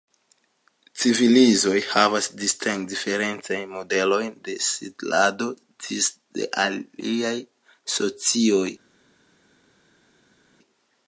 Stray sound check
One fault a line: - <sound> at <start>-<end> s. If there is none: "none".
none